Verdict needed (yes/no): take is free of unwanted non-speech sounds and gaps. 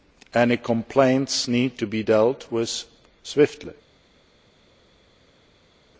yes